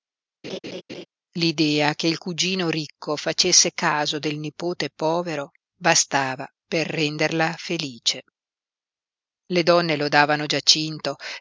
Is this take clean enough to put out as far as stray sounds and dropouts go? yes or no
no